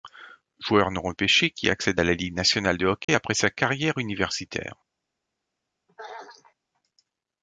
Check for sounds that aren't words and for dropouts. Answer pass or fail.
fail